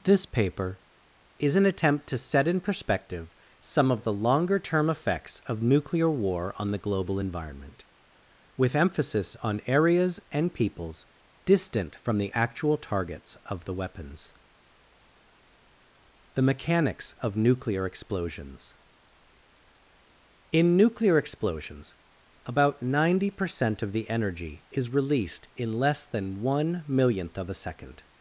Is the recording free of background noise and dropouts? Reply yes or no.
yes